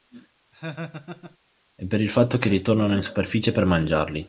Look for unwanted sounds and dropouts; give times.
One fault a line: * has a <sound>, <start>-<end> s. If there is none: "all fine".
* has a laugh, 0.5-1.4 s